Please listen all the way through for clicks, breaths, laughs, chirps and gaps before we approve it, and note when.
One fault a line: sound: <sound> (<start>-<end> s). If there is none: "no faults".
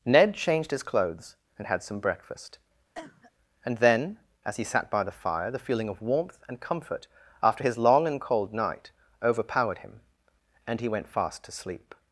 sound: cough (2.9-3.3 s)